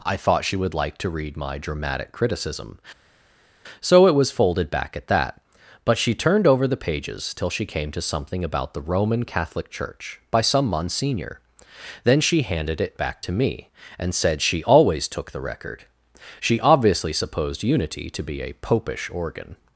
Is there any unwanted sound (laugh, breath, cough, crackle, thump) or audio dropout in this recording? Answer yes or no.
no